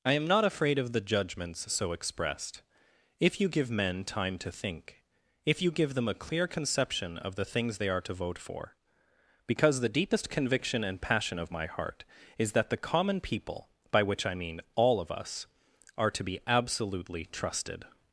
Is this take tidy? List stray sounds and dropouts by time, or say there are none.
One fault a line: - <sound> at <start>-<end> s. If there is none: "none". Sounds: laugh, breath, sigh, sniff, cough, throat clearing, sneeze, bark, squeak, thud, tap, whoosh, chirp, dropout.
none